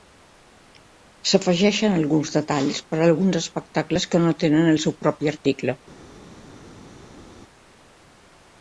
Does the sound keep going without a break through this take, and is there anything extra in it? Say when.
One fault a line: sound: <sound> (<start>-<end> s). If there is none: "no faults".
no faults